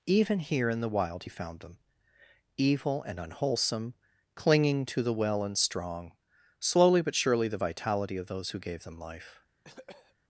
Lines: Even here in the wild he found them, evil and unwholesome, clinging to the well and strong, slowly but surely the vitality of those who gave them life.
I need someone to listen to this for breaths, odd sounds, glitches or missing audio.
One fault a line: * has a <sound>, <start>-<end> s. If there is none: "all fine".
* has a cough, 9.6-10.2 s